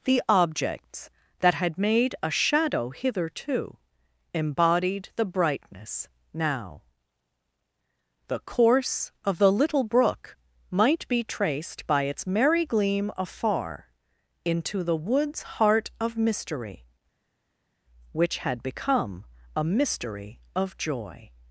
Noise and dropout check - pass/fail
pass